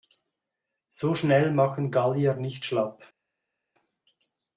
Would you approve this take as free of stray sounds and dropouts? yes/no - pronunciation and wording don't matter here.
yes